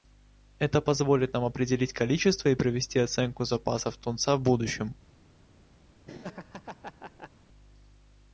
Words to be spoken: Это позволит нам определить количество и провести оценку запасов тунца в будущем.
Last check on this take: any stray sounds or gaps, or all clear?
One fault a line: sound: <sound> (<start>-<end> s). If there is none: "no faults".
sound: laugh (6.1-7.3 s)